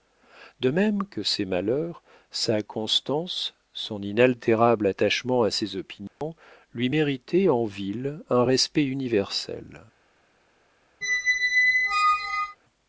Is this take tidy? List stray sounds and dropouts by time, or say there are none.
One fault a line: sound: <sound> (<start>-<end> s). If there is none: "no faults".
sound: dropout (6.1-6.2 s)
sound: squeak (11.0-12.6 s)